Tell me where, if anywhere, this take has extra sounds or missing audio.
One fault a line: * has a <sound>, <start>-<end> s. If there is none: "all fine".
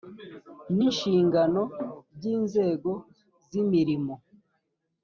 all fine